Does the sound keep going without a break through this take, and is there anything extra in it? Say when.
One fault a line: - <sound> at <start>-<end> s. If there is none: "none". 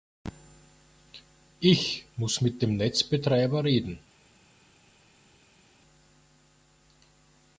none